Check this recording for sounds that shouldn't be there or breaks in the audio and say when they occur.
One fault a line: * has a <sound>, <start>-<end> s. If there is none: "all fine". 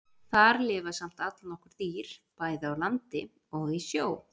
all fine